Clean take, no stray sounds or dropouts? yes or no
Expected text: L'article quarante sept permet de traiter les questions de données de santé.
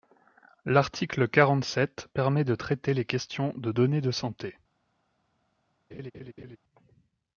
no